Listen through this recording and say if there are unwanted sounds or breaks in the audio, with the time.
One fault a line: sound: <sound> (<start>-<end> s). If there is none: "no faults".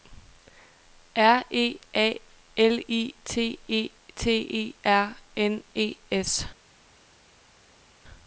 no faults